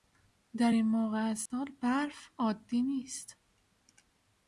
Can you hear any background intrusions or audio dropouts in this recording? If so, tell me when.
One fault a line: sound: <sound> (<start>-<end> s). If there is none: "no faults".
sound: dropout (1.5-1.5 s)